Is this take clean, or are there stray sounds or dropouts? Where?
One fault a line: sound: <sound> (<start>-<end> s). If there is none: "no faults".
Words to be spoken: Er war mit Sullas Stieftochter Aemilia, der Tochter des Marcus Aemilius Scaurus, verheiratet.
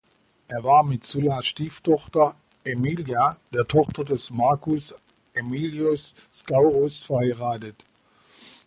no faults